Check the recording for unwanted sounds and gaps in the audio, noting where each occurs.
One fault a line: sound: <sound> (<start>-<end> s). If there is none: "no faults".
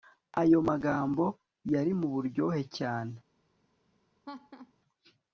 sound: laugh (4.2-4.7 s)